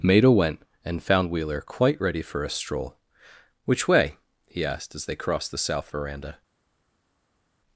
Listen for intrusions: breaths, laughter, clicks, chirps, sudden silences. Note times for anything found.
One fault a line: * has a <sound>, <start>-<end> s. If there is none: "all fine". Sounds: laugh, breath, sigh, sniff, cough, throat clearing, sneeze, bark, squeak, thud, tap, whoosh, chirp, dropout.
all fine